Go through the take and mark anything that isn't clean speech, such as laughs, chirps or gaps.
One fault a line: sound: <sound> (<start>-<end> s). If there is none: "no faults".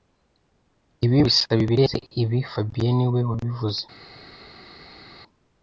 no faults